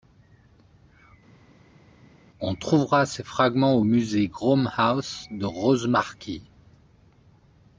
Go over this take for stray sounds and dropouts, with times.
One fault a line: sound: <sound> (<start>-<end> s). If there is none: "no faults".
no faults